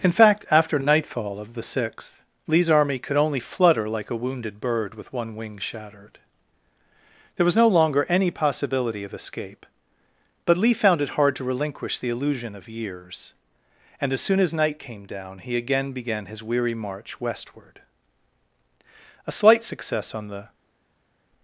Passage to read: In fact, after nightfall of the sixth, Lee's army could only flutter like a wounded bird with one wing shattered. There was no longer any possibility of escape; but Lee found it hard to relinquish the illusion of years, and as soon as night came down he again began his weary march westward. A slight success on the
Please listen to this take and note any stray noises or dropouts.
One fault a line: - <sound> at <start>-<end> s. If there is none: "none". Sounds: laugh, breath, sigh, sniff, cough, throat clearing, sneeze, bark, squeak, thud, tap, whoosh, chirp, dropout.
none